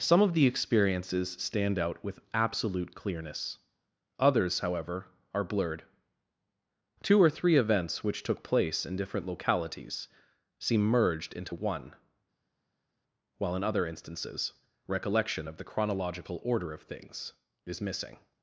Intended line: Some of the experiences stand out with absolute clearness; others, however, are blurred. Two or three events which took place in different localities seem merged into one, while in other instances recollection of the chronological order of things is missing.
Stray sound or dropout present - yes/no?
no